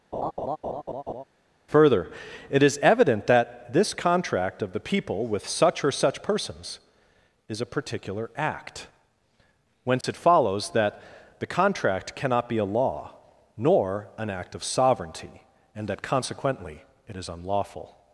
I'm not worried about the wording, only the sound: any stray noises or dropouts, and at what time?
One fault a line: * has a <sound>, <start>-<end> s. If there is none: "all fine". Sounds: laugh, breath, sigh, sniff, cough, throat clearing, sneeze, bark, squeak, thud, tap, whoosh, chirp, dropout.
* has a laugh, 0.1-1.2 s
* has a dropout, 10.0-10.0 s